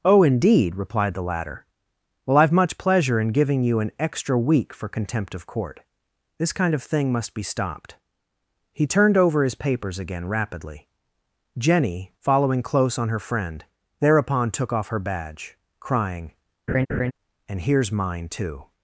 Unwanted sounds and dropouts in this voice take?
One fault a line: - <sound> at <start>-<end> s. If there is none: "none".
- laugh at 16.7-17.1 s